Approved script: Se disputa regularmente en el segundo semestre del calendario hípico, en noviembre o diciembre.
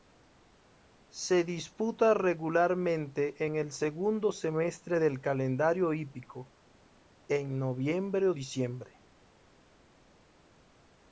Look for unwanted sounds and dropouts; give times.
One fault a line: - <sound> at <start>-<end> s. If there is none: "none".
none